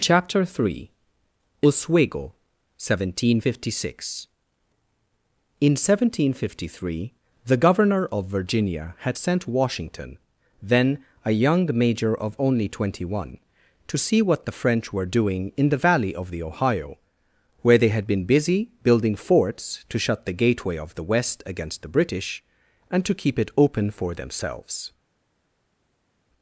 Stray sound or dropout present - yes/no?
no